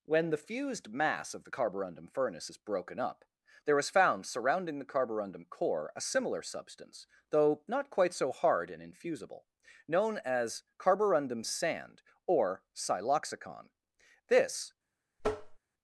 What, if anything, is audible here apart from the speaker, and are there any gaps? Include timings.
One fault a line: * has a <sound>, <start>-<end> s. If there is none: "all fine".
* has a tap, 15.2-15.6 s